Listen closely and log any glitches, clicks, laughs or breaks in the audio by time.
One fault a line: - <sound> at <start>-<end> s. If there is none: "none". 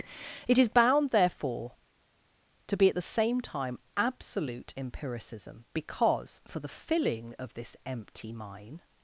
none